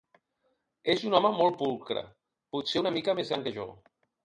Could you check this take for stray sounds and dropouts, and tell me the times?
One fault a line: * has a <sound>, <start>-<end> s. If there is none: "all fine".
all fine